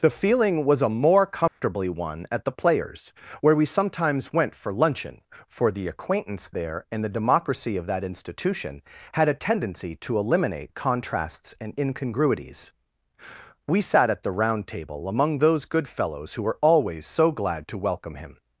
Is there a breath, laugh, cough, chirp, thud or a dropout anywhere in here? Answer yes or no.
yes